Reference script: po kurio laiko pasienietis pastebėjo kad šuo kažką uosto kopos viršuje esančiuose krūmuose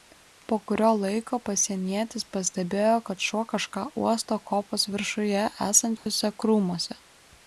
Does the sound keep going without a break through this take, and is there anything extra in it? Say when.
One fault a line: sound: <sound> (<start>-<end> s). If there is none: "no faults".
sound: dropout (6.0-6.1 s)